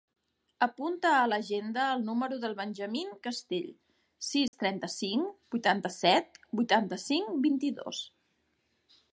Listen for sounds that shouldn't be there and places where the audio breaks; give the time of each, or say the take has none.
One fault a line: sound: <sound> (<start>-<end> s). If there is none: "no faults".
sound: dropout (4.5-4.5 s)